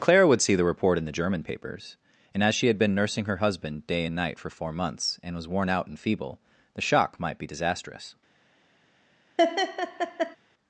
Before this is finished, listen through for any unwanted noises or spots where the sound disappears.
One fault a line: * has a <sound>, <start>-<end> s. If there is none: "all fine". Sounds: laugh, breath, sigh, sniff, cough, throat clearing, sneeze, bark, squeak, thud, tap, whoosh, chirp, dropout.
* has a laugh, 9.4-10.4 s